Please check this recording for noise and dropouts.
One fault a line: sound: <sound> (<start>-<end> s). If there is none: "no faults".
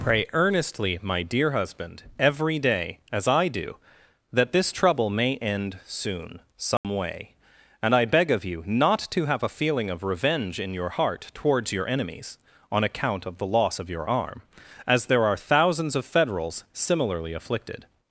sound: dropout (6.8-6.8 s)